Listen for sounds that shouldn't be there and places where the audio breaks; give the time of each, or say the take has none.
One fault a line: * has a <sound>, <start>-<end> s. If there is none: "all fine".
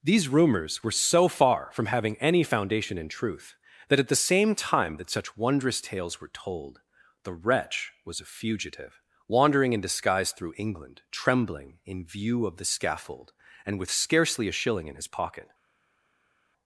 all fine